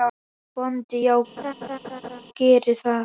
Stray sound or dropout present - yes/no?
yes